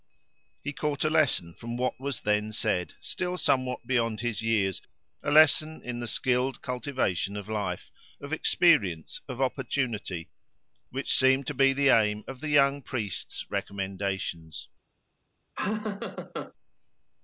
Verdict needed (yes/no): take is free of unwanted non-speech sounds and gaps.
no